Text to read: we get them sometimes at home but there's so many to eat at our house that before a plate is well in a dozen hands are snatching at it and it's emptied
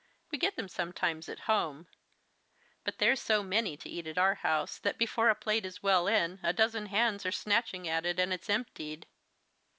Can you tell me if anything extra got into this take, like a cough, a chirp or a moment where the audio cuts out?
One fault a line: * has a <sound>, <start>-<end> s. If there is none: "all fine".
all fine